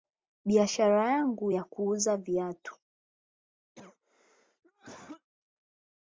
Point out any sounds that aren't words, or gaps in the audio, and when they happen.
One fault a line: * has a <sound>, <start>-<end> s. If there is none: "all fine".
* has a cough, 3.8-5.3 s